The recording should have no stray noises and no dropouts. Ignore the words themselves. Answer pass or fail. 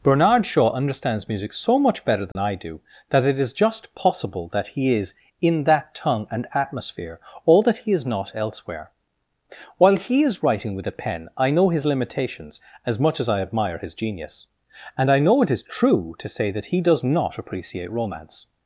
fail